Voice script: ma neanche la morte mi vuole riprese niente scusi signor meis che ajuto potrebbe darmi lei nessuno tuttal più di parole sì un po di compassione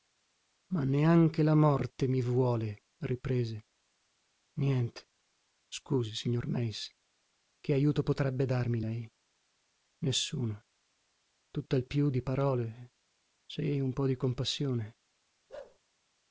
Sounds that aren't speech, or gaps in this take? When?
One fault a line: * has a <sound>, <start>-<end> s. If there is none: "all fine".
* has a bark, 15.5-15.8 s